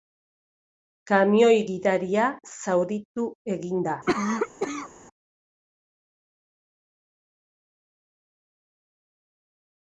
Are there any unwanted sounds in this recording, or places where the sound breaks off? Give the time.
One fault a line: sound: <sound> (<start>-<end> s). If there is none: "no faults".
sound: cough (4.1-4.9 s)